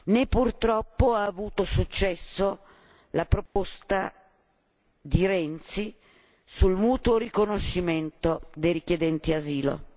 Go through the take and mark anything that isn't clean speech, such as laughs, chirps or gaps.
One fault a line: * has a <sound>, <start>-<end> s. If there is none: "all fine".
* has a dropout, 3.5-3.6 s